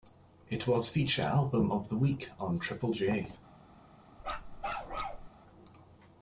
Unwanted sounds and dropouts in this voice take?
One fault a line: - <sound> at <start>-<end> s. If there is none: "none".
- bark at 4.2-5.3 s